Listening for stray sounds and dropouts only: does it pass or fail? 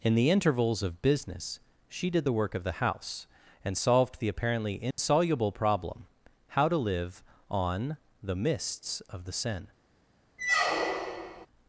fail